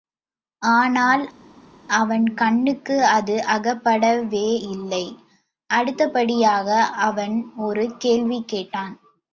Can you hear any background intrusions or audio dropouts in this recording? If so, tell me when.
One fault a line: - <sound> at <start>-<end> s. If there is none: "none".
none